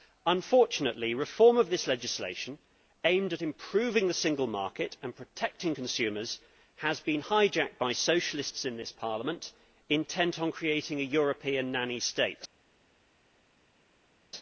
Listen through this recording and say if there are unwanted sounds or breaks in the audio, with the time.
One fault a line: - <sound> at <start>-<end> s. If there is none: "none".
none